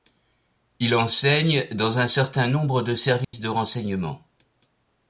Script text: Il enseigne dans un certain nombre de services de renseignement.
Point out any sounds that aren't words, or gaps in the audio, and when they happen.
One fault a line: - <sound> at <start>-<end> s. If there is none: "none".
- dropout at 3.2-3.3 s